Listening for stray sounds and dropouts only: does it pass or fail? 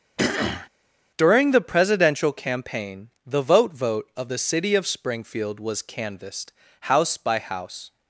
fail